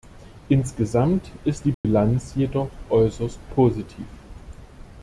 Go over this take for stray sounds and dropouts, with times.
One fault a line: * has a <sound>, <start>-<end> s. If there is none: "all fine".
* has a dropout, 1.7-1.8 s